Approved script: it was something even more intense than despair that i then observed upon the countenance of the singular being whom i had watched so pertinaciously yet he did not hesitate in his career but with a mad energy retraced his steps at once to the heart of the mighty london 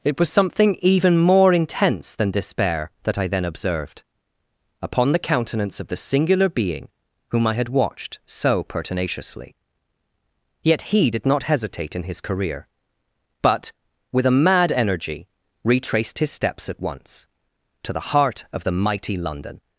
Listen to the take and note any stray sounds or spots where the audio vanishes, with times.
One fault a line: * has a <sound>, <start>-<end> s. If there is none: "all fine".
all fine